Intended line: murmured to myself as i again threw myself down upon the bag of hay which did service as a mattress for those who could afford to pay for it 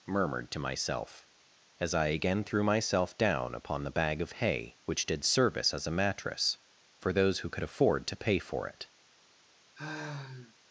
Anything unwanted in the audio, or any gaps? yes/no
yes